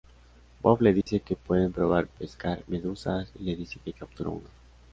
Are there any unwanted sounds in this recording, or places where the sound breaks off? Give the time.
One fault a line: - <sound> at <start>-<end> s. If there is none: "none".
- dropout at 1.0-1.1 s